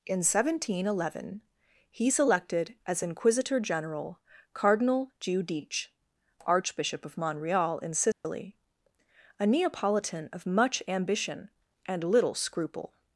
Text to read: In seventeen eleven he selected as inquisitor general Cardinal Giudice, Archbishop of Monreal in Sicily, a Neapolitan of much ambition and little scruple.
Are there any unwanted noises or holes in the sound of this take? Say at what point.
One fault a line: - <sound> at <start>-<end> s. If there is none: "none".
- dropout at 8.1-8.2 s